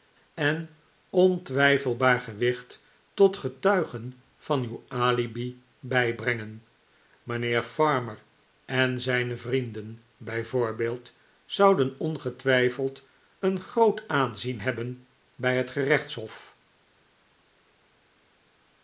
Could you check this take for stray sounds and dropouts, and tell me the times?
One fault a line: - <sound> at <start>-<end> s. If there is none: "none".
none